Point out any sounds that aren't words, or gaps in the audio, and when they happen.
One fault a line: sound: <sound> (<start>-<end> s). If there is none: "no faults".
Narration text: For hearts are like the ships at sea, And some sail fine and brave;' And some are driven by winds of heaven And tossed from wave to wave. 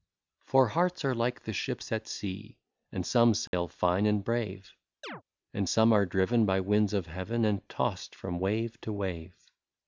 sound: dropout (3.5-3.5 s)
sound: chirp (5.0-5.2 s)